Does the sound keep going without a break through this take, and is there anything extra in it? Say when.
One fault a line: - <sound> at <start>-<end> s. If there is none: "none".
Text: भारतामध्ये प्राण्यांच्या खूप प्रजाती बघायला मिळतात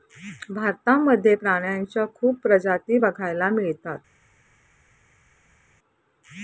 none